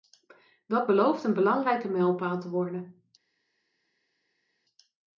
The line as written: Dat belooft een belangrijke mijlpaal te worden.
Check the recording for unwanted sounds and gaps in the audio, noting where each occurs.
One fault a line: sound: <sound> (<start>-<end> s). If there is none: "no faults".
no faults